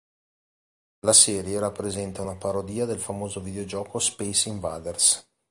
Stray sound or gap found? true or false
false